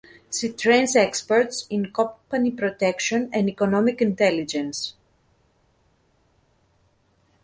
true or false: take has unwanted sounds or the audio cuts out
false